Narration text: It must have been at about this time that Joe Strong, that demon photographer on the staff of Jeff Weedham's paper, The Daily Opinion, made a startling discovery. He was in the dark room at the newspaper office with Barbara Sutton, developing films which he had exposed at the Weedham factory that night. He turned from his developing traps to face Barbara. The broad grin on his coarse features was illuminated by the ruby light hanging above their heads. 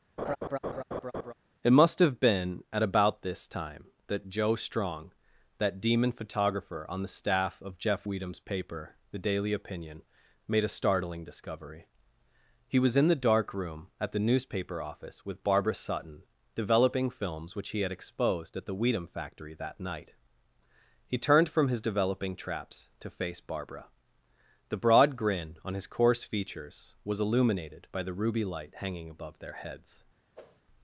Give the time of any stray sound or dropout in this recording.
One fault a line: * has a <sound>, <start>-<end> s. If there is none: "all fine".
* has a laugh, 0.2-1.3 s
* has a whoosh, 30.3-30.6 s